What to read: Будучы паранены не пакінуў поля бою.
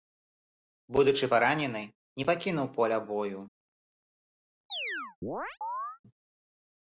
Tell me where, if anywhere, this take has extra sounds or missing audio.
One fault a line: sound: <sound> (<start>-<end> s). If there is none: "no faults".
sound: chirp (4.7-6.0 s)